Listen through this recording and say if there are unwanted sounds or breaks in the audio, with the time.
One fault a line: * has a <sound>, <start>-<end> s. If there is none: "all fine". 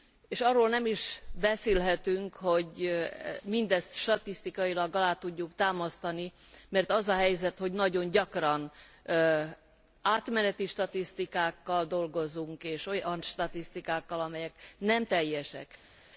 all fine